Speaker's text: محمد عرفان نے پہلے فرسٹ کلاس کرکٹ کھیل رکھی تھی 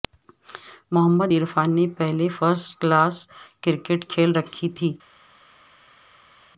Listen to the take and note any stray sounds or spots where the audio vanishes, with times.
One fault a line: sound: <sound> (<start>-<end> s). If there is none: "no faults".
no faults